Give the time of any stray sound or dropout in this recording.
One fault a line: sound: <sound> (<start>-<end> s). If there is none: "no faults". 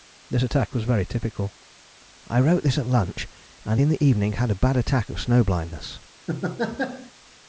sound: laugh (6.3-7.1 s)